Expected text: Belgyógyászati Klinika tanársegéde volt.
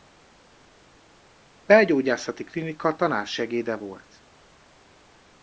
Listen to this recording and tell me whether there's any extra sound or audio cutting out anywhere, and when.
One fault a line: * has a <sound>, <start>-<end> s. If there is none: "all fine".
all fine